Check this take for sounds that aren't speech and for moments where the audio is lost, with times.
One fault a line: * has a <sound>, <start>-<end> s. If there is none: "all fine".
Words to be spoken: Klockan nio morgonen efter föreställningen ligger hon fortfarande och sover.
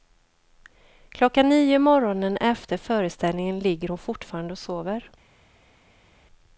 all fine